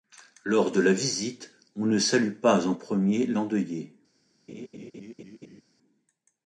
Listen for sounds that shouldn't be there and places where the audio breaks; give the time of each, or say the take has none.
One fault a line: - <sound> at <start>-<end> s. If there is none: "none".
- laugh at 4.5-5.6 s